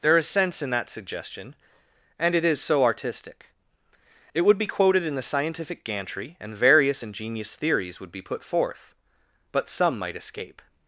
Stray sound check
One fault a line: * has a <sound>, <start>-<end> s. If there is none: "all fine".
all fine